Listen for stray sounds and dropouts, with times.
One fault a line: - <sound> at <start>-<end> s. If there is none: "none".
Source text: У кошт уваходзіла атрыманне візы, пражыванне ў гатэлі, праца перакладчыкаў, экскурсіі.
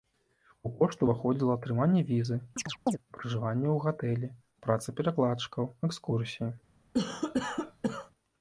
- chirp at 2.6-3.0 s
- cough at 6.9-8.1 s